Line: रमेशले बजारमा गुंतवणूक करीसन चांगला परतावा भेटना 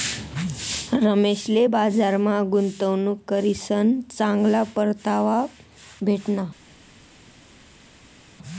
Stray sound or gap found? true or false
false